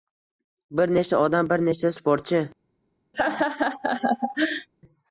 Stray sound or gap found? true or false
true